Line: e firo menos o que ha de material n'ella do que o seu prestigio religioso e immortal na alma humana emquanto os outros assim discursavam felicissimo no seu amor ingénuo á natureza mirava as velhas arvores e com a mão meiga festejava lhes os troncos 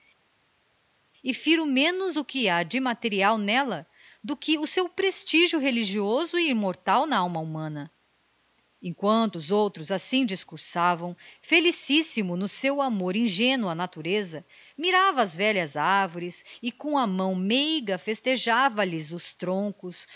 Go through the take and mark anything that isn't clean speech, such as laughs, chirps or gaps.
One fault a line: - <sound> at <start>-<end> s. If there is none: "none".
none